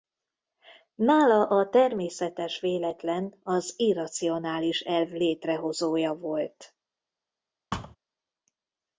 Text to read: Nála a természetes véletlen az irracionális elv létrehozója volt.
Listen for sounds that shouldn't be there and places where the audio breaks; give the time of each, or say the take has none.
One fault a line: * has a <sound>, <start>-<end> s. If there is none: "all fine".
* has a thud, 7.7-8.0 s